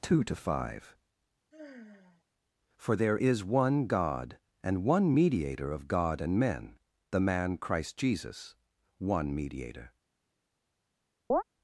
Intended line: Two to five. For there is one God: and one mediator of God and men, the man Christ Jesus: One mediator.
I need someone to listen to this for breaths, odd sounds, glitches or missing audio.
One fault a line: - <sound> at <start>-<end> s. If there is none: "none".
- sigh at 1.5-2.2 s
- chirp at 11.3-11.4 s